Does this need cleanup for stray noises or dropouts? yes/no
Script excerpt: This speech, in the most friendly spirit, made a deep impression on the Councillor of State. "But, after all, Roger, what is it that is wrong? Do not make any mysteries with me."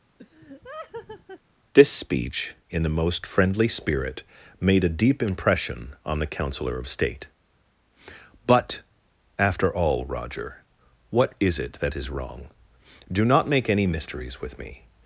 yes